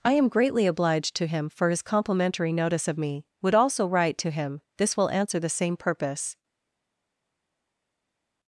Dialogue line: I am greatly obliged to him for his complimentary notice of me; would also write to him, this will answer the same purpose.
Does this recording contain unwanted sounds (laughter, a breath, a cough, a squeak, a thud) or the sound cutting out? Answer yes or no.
no